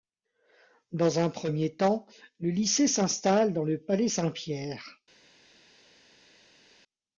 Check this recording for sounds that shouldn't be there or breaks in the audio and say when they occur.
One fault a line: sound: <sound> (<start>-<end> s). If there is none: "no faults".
no faults